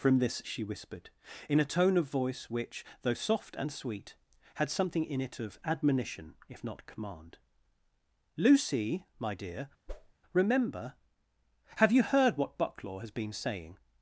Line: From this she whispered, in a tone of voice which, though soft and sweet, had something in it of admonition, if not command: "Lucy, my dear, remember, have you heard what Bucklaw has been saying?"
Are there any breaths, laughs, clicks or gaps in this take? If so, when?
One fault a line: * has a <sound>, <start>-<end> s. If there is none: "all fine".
* has a whoosh, 9.9-10.1 s